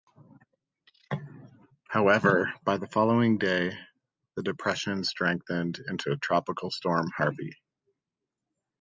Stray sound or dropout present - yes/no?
no